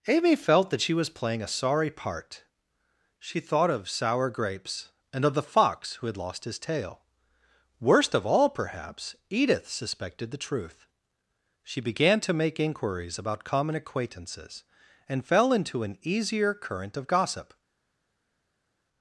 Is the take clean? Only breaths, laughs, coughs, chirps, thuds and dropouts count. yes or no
yes